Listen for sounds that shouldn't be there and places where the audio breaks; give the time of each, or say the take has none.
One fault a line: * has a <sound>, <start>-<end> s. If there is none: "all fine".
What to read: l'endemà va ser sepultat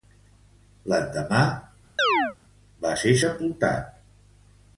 * has a chirp, 2.0-2.4 s